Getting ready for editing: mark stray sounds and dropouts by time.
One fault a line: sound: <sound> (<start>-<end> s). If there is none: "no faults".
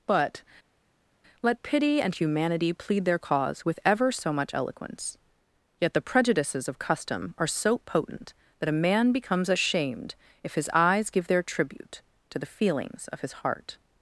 no faults